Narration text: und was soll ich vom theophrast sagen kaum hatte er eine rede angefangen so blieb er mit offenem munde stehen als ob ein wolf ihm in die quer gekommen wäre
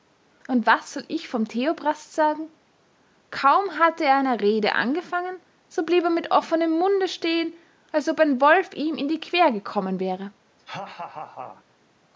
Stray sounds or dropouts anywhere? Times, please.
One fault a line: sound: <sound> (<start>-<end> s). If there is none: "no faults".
sound: laugh (10.6-11.6 s)